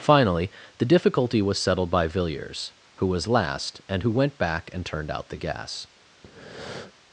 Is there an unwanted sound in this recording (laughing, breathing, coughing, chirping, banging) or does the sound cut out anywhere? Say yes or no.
yes